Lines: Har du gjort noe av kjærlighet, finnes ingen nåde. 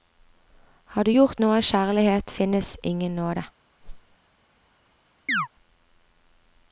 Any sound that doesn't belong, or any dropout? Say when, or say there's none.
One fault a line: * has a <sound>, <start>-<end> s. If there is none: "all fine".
* has a whoosh, 3.8-4.2 s
* has a chirp, 5.3-5.5 s